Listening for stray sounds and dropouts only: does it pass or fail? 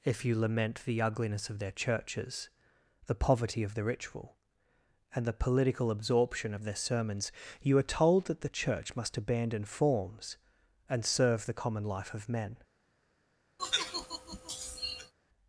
fail